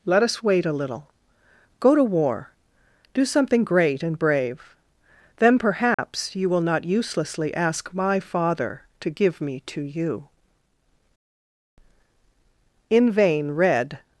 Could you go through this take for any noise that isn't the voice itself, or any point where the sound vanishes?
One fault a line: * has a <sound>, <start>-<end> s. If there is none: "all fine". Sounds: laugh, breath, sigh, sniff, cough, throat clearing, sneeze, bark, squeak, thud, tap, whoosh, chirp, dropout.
* has a dropout, 5.9-6.0 s